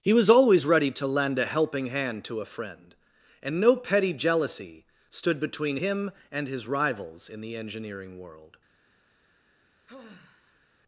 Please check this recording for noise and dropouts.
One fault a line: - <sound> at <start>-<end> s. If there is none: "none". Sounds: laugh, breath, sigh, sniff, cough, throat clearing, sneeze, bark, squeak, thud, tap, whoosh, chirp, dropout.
- sigh at 9.9-10.7 s